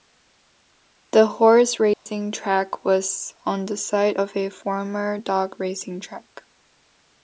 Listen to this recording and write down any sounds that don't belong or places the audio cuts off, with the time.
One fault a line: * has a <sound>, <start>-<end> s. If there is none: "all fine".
* has a dropout, 1.9-2.1 s